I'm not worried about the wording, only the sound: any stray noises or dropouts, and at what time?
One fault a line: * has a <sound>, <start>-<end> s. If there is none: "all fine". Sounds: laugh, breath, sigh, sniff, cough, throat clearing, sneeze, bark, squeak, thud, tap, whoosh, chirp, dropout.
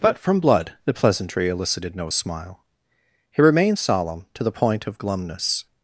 all fine